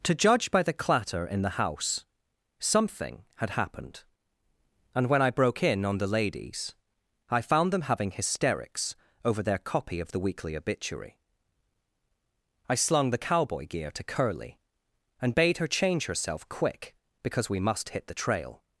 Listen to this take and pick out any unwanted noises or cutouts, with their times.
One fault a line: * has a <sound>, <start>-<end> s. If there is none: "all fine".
all fine